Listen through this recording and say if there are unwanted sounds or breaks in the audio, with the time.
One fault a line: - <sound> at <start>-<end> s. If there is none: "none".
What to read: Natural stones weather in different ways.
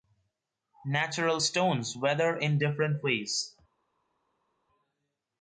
none